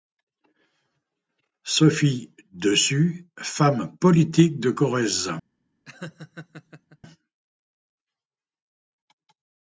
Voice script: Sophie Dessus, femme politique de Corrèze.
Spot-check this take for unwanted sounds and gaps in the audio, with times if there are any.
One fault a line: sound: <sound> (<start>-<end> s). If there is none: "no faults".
sound: laugh (5.8-7.0 s)